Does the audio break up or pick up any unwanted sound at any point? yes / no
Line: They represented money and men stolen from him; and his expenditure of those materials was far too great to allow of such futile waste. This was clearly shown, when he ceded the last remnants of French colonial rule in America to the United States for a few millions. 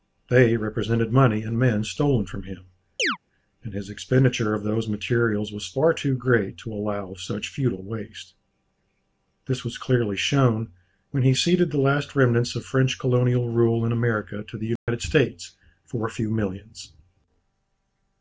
yes